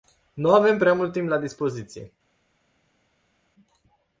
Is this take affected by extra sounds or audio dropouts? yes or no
no